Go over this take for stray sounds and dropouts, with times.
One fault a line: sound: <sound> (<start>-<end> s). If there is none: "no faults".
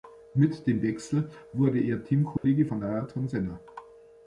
sound: dropout (2.4-2.4 s)